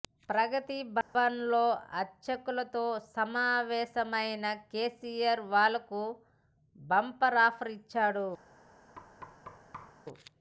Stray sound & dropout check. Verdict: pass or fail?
fail